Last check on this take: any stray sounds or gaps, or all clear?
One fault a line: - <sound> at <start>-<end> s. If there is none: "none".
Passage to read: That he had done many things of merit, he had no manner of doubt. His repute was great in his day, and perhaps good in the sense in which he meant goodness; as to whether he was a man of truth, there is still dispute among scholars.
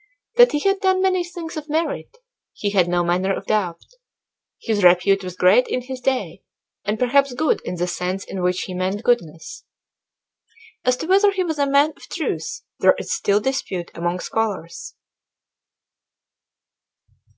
none